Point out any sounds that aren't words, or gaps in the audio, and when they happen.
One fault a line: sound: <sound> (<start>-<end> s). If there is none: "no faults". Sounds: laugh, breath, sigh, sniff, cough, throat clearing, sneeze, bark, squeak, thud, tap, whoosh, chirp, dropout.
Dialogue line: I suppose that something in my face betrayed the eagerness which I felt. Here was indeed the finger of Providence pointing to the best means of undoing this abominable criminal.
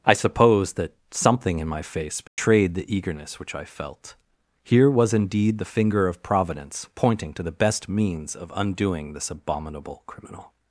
sound: dropout (2.3-2.4 s)